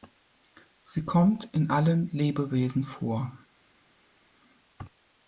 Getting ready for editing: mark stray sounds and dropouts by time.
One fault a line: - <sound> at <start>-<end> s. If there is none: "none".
none